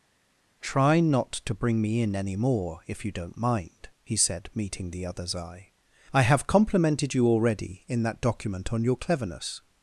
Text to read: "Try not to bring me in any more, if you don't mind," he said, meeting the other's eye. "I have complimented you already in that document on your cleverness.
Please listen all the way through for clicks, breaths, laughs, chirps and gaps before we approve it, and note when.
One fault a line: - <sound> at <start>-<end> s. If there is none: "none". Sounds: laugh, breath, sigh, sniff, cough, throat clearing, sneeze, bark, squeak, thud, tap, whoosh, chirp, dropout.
none